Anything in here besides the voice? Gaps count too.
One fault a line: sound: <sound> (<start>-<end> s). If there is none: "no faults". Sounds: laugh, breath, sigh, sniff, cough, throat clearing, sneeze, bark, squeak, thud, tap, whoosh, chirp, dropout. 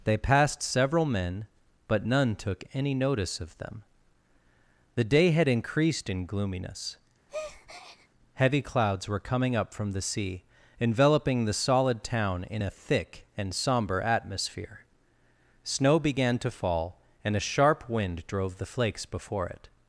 sound: breath (7.3-8.1 s)